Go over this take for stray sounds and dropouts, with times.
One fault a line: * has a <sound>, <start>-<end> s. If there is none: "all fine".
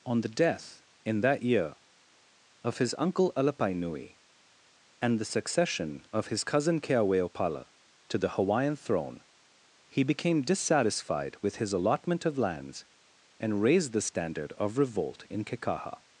all fine